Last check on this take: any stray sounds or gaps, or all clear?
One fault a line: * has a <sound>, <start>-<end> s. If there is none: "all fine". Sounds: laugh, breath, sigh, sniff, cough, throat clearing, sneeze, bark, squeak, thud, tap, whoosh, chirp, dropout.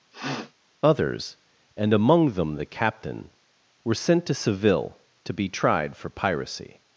* has a sniff, 0.1-0.5 s